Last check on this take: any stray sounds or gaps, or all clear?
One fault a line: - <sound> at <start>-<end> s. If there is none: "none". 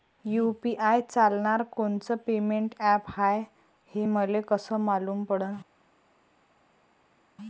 none